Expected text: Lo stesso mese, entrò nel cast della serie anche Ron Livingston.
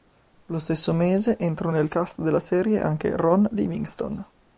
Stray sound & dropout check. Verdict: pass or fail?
pass